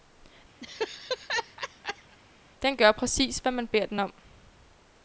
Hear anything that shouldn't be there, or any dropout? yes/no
yes